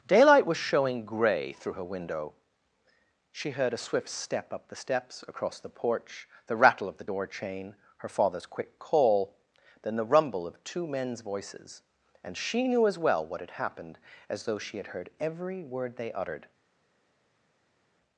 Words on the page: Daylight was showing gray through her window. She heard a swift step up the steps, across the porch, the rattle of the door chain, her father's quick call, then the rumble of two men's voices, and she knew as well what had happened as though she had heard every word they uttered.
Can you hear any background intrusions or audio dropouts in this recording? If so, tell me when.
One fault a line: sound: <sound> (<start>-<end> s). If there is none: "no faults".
no faults